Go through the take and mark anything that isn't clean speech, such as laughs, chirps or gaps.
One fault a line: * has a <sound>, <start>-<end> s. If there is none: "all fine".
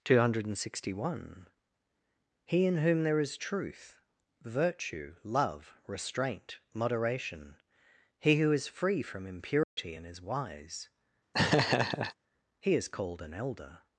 * has a dropout, 9.6-9.8 s
* has a laugh, 11.3-12.1 s